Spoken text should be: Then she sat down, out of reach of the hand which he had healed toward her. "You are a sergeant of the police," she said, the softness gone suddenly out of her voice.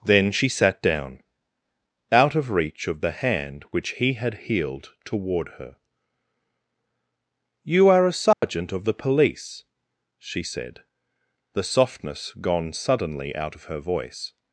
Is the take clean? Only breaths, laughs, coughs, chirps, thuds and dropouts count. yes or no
no